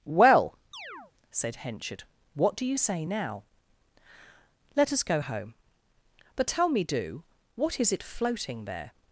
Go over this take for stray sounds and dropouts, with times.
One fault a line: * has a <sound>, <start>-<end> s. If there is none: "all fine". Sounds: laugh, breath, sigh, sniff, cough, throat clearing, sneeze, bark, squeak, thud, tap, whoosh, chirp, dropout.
* has a chirp, 0.7-1.1 s